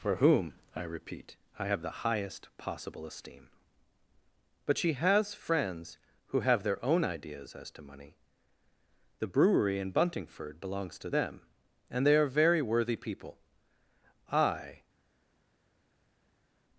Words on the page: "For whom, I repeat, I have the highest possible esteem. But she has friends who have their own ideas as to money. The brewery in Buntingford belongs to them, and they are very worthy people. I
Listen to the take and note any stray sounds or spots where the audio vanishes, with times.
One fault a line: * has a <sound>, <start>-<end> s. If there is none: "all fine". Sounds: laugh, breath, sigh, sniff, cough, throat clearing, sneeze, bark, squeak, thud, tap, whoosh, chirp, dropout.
all fine